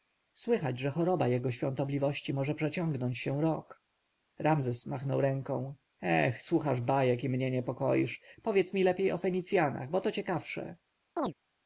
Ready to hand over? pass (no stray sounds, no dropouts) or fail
fail